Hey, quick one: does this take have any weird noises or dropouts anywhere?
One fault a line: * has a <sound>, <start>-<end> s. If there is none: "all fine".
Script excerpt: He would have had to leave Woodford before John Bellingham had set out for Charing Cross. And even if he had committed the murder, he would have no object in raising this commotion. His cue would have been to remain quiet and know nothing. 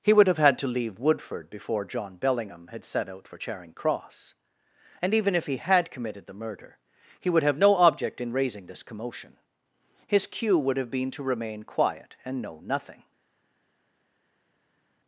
all fine